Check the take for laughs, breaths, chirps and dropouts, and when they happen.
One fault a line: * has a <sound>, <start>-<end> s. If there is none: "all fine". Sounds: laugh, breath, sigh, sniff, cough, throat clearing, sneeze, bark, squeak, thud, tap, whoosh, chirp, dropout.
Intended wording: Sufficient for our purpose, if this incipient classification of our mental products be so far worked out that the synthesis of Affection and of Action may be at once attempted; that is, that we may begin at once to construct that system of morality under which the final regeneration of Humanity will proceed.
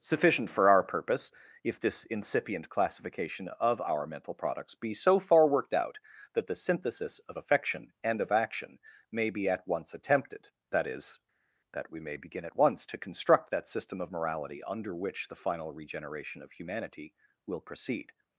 all fine